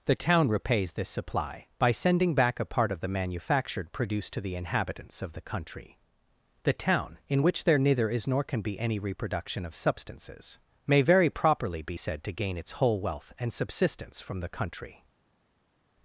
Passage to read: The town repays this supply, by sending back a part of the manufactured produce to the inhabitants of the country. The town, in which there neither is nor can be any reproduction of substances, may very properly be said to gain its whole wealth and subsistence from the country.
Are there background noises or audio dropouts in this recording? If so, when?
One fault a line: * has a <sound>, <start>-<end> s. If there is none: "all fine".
all fine